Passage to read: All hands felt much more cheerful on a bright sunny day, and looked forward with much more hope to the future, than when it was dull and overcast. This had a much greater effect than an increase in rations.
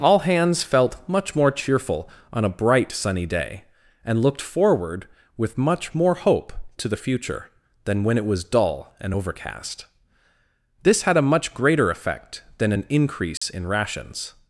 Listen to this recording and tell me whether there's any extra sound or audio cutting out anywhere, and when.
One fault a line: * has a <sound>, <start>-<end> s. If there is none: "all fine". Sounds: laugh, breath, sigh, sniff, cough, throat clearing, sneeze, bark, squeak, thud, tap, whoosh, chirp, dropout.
* has a dropout, 13.4-13.4 s